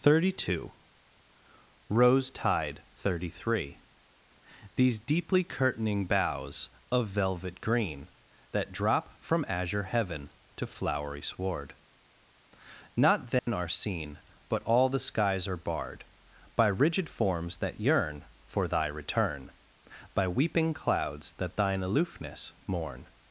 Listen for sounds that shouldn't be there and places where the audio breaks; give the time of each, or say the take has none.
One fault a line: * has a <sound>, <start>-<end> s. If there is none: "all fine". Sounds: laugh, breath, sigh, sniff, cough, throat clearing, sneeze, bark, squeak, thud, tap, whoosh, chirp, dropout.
* has a dropout, 13.4-13.5 s